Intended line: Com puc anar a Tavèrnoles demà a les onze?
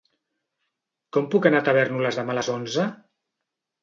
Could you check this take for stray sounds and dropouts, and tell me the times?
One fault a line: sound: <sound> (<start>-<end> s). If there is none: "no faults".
no faults